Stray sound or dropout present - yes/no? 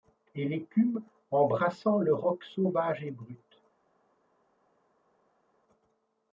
no